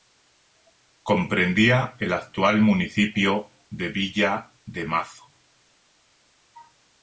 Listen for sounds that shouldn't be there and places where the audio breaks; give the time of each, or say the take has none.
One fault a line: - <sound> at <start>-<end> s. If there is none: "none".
none